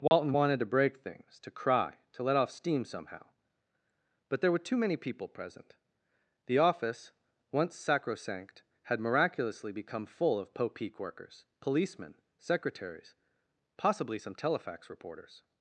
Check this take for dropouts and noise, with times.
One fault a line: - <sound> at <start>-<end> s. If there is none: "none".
- dropout at 0.1-0.1 s